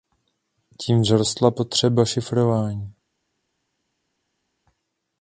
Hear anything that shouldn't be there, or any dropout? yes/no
no